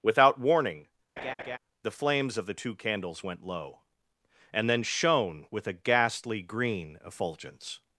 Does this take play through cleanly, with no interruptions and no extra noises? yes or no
no